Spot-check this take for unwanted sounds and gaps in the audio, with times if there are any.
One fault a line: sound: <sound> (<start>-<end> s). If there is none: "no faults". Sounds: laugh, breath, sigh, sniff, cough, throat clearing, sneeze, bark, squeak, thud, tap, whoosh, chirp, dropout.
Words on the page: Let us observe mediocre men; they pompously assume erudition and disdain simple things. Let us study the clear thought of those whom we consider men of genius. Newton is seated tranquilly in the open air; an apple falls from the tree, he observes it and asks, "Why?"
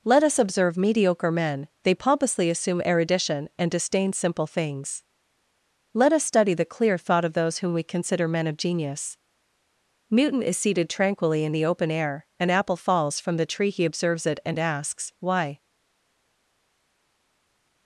no faults